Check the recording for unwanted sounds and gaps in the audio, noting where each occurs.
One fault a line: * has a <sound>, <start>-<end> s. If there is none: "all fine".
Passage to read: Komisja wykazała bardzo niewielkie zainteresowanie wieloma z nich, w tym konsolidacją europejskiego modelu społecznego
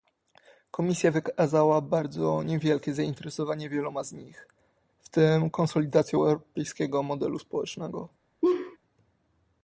* has a laugh, 8.4-8.8 s